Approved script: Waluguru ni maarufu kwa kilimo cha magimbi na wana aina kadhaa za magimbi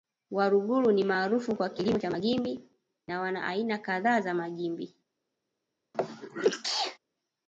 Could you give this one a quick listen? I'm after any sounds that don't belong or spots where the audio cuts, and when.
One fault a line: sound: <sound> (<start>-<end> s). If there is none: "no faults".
sound: sneeze (5.9-7.0 s)